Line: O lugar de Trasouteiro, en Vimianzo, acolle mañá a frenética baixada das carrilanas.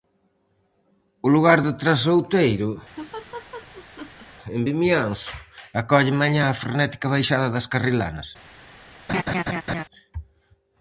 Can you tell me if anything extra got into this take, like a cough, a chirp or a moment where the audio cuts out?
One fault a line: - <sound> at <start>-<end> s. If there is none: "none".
- laugh at 3.0-4.3 s
- laugh at 9.1-9.8 s